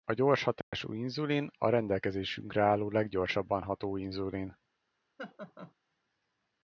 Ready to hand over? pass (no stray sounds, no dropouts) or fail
fail